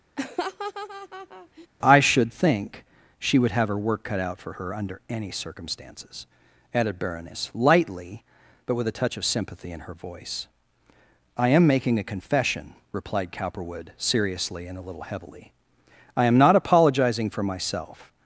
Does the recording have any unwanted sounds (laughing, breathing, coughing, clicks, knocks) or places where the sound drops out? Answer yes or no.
yes